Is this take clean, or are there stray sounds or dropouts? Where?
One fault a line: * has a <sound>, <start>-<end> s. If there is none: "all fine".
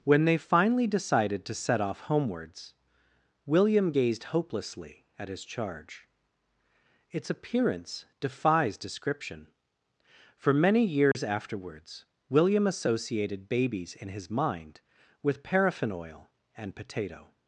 * has a dropout, 11.1-11.1 s